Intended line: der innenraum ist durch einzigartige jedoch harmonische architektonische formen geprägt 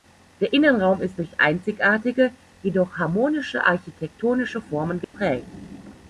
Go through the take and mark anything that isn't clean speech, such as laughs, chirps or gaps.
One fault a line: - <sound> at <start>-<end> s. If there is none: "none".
- dropout at 5.0-5.1 s